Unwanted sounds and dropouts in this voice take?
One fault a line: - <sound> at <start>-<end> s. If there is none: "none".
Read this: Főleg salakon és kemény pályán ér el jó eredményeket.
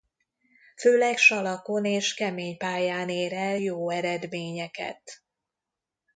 none